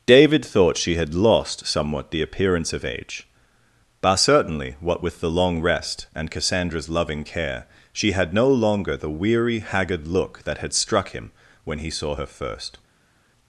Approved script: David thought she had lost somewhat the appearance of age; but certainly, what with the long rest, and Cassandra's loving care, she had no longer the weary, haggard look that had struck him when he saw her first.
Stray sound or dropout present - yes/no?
no